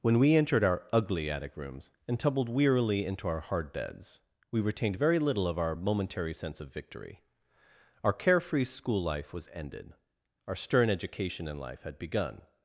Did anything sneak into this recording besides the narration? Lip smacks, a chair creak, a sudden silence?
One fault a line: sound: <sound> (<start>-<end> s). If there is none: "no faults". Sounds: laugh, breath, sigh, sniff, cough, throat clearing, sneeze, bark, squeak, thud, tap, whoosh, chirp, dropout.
no faults